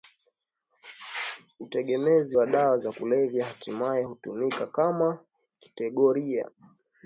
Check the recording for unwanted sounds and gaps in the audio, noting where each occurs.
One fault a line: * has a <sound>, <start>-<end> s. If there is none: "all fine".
all fine